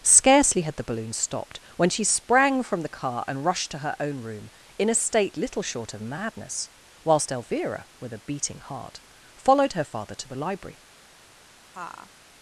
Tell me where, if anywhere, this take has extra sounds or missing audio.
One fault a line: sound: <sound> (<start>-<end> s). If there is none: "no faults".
sound: laugh (11.7-12.1 s)